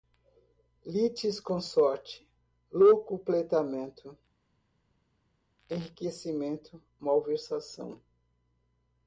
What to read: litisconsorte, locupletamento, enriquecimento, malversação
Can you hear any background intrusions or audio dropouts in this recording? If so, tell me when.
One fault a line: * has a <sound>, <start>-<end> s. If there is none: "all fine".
all fine